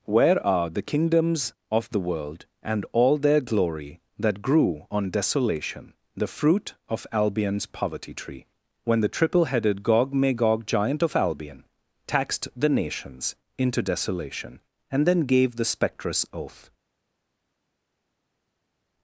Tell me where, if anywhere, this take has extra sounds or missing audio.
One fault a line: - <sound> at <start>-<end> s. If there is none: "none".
none